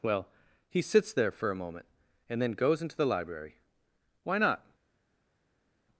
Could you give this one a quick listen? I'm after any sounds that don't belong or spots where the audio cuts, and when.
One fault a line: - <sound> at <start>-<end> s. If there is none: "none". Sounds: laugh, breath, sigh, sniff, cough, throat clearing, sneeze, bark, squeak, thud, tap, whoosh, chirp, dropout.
none